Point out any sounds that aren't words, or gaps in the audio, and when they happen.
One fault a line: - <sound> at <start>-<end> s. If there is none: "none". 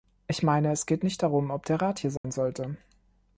- dropout at 2.2-2.2 s